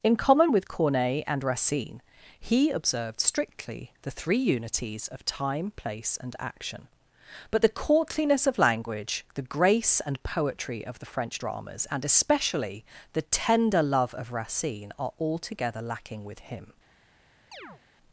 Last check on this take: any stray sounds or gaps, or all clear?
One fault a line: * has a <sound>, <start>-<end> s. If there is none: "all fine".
* has a chirp, 17.5-17.8 s